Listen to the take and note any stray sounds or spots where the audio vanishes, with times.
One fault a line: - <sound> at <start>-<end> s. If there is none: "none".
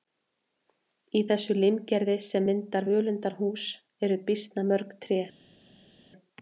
none